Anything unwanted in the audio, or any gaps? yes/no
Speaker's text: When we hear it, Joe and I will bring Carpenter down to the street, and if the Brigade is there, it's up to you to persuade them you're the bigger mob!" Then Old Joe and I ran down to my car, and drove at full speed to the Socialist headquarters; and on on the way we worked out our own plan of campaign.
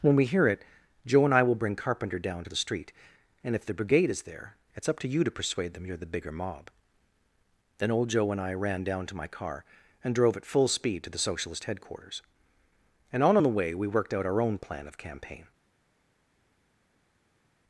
no